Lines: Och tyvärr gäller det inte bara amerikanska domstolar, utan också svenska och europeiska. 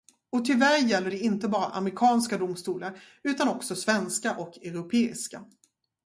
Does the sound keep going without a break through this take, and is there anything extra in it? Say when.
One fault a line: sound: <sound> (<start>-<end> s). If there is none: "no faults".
no faults